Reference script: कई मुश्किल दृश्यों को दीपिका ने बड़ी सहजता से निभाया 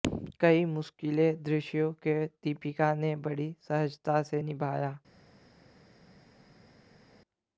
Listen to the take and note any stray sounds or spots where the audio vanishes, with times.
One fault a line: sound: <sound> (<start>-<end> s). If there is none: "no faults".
no faults